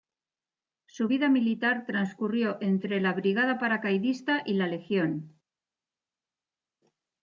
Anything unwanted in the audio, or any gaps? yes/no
no